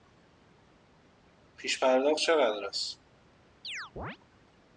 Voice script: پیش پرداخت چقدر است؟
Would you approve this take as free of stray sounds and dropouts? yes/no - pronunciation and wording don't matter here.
no